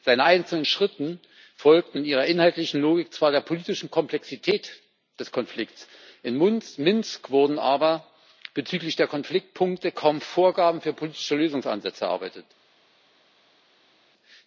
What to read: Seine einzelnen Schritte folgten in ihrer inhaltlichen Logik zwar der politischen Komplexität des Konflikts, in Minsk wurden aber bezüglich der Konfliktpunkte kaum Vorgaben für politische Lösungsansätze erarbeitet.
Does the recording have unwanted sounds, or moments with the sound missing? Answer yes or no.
no